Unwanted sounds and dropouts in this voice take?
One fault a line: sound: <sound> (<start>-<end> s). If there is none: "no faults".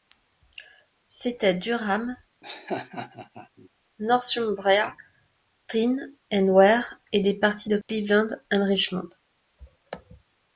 sound: laugh (2.4-3.7 s)
sound: dropout (7.8-7.9 s)